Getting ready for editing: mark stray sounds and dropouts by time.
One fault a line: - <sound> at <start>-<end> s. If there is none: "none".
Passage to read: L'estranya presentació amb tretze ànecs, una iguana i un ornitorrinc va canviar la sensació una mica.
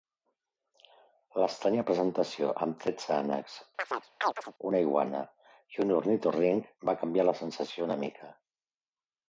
- chirp at 3.8-4.5 s